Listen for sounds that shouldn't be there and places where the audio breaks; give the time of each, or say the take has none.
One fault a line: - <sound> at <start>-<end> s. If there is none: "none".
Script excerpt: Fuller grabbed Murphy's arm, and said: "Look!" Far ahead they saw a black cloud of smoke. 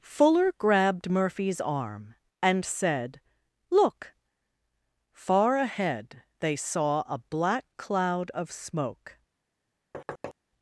- thud at 9.9-10.3 s